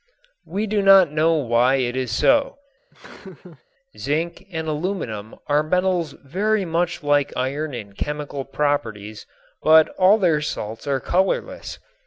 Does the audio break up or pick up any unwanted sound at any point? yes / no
yes